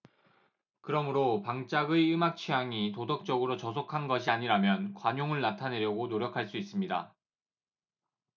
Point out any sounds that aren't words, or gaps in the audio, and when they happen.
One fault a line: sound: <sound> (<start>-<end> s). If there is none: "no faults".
no faults